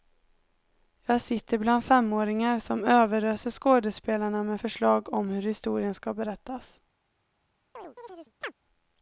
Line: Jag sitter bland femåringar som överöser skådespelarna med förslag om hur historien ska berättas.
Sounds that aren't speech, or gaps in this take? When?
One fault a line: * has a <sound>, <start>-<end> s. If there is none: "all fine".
* has a chirp, 7.7-8.5 s